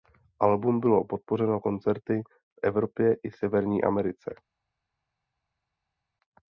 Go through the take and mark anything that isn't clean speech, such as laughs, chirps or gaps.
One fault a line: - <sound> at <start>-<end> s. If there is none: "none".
none